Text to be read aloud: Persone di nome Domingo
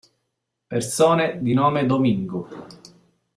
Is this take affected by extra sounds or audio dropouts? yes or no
no